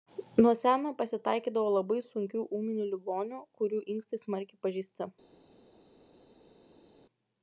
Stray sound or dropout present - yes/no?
no